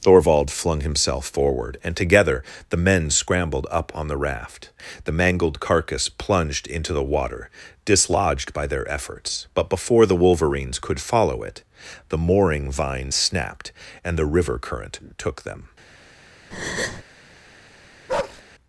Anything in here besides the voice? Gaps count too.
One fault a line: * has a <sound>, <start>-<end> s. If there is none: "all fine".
* has a breath, 16.5-17.0 s
* has a bark, 18.1-18.4 s